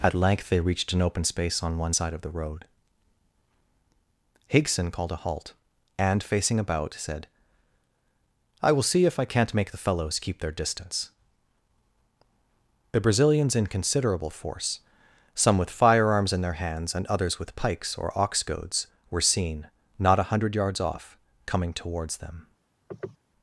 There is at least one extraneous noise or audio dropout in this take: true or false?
true